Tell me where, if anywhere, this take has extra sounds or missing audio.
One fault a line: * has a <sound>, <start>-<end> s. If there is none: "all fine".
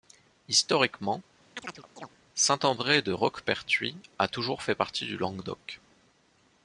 * has a chirp, 1.6-2.1 s